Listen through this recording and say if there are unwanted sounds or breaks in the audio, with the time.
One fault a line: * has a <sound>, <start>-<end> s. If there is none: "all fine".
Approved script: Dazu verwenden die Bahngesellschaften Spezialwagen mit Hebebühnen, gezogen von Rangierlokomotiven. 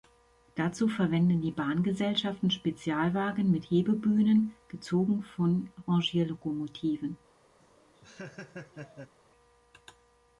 * has a laugh, 7.6-9.1 s